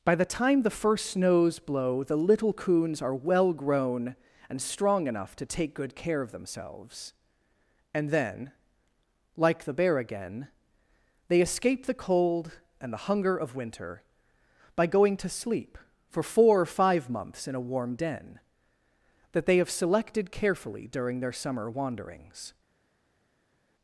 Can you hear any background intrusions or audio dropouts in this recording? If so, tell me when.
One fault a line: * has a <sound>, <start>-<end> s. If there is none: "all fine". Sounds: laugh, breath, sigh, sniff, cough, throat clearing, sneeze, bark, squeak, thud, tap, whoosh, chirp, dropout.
all fine